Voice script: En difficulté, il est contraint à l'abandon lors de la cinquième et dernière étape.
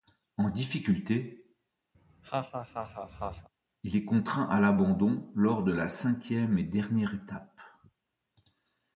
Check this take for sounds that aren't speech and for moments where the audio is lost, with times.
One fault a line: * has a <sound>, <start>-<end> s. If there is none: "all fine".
* has a laugh, 1.9-3.5 s